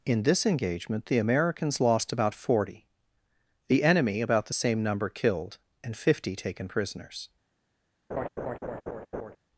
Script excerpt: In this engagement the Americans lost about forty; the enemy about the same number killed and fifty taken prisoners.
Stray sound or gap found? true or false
true